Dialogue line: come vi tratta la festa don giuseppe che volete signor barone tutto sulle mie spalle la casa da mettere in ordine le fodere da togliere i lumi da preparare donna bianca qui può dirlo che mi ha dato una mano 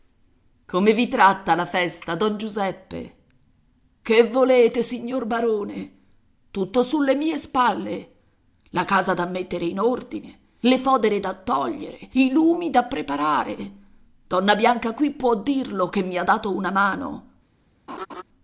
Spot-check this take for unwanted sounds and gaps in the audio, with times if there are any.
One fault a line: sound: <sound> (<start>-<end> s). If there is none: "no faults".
sound: laugh (17.9-18.2 s)